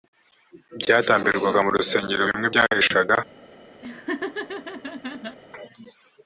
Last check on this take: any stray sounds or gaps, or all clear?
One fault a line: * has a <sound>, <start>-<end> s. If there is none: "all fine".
* has a laugh, 3.8-5.4 s